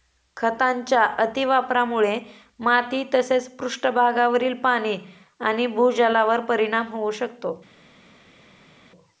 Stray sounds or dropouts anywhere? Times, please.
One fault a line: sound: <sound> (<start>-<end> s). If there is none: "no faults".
no faults